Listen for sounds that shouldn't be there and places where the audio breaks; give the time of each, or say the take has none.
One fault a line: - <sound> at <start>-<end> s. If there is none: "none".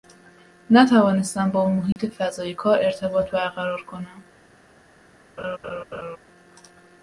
- dropout at 1.9-2.0 s
- laugh at 5.4-6.2 s